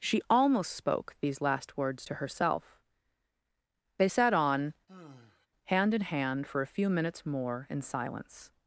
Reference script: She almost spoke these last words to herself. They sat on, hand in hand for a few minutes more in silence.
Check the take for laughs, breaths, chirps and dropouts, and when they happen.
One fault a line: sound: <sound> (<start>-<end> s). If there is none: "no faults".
sound: sigh (4.9-5.5 s)